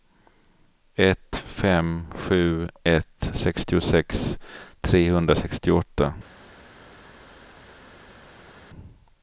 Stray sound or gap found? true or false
false